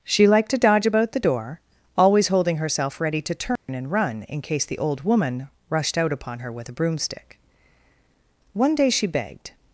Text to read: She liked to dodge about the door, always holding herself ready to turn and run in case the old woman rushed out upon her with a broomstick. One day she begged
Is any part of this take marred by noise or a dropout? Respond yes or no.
yes